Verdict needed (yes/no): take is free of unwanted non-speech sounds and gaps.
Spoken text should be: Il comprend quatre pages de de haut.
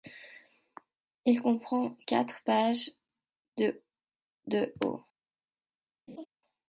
no